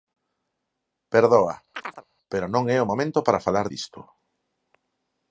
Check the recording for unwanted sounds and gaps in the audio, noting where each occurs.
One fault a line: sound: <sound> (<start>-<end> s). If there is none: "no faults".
sound: chirp (1.7-2.0 s)